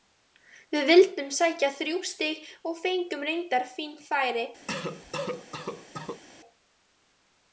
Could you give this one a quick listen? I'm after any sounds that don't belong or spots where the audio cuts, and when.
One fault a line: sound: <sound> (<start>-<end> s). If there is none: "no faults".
sound: cough (4.7-6.2 s)